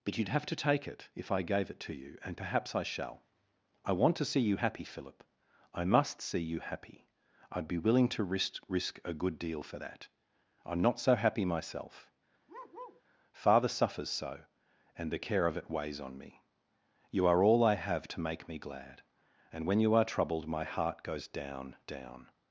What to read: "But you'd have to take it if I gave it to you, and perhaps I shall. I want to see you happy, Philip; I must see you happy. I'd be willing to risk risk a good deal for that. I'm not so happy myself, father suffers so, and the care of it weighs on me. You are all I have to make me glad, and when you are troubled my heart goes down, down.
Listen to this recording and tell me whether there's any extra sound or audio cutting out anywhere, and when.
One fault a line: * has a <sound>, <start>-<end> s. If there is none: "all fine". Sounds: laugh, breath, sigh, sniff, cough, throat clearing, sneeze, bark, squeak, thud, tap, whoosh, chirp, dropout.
* has a bark, 12.5-13.0 s